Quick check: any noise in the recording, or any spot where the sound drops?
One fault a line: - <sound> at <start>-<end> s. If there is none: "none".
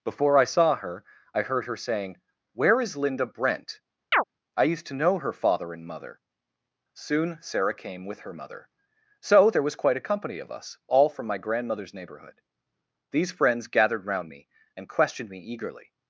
- chirp at 4.1-4.2 s